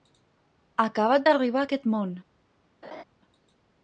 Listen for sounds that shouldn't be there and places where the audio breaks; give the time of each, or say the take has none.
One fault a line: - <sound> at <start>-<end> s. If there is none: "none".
- laugh at 2.8-3.0 s